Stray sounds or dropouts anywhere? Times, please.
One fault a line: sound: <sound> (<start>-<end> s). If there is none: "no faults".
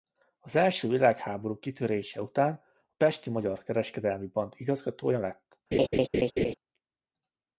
sound: laugh (5.7-6.5 s)